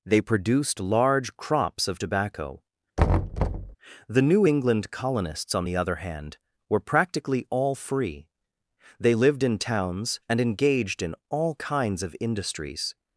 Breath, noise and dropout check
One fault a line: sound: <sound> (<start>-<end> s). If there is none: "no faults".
sound: thud (3.0-3.8 s)